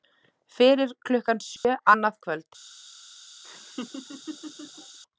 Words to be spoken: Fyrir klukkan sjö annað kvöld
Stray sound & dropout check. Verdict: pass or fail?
fail